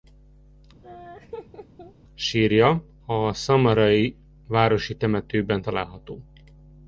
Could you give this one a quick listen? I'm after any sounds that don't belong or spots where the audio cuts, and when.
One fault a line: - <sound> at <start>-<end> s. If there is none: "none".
- laugh at 0.8-1.9 s